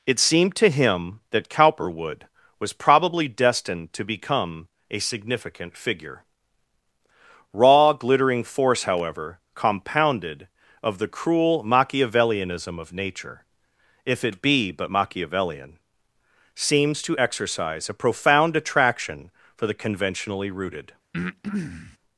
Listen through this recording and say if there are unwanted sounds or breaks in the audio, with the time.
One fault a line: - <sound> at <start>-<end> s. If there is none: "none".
- breath at 21.1-22.0 s